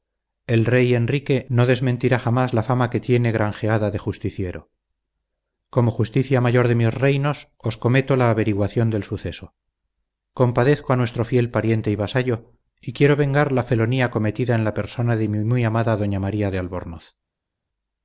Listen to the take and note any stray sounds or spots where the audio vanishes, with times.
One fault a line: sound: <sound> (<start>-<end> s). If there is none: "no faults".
no faults